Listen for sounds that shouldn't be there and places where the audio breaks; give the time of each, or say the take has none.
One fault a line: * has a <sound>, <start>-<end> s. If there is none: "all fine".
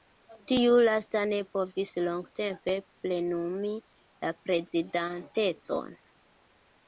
all fine